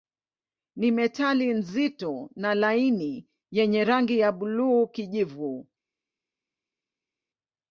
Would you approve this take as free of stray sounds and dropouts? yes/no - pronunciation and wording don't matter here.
yes